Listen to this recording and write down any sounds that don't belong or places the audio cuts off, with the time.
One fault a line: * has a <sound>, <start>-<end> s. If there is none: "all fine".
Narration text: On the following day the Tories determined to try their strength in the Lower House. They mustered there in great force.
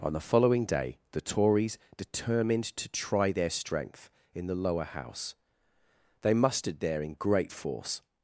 all fine